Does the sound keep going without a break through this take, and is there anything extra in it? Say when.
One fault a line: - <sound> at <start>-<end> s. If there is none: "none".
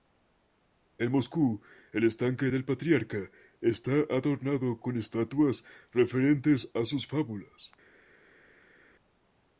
none